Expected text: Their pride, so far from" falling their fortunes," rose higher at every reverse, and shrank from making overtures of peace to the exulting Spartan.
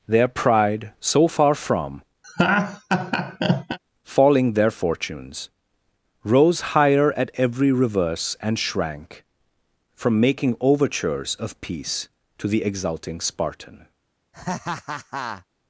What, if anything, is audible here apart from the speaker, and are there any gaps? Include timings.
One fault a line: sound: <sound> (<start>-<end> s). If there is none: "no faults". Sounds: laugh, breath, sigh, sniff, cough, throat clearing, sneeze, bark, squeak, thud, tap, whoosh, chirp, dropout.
sound: laugh (2.2-3.8 s)
sound: laugh (14.3-15.5 s)